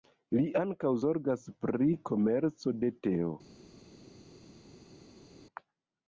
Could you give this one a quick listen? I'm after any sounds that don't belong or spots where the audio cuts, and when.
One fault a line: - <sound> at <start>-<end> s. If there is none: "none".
none